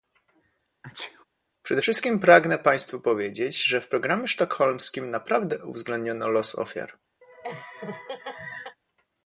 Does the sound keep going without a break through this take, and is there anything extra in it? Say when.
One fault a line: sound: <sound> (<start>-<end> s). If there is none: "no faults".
sound: sneeze (0.8-1.2 s)
sound: laugh (7.2-8.8 s)